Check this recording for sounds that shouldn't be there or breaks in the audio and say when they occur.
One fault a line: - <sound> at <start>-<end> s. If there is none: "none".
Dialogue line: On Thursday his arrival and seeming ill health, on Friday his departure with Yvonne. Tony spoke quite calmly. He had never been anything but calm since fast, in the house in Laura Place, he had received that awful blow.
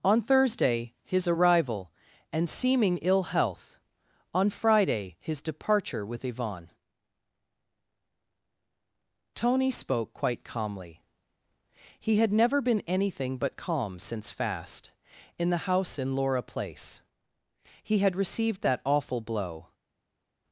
none